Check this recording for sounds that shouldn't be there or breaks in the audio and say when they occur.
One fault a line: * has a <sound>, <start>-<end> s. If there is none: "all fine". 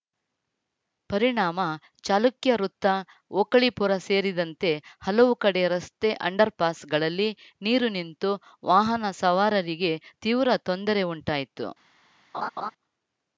* has a laugh, 12.3-12.7 s